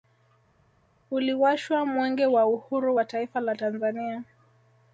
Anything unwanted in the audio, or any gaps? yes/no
no